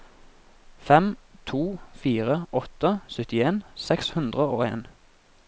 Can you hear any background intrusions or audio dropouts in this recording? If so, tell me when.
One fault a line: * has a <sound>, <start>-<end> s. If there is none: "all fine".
all fine